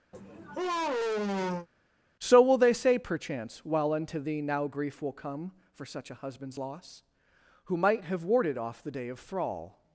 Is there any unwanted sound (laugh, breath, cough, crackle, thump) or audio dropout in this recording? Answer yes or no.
yes